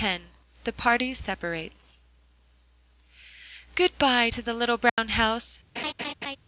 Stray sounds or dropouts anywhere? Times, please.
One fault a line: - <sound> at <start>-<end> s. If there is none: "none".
- dropout at 4.9-5.0 s
- laugh at 5.8-6.4 s